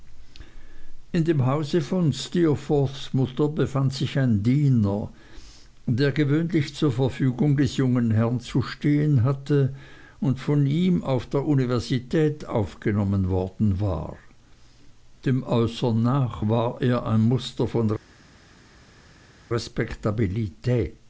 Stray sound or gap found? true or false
false